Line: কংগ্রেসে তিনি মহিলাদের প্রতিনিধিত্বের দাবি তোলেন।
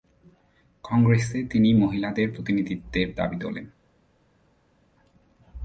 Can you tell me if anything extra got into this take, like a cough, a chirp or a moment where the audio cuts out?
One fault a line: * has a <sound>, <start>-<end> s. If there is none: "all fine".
all fine